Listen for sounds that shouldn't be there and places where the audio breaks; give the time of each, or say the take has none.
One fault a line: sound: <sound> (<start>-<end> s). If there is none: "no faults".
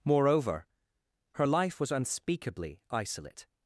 no faults